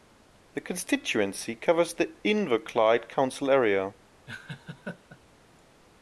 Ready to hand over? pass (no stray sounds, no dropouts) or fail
fail